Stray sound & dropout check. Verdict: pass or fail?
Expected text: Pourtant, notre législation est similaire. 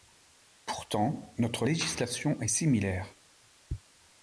pass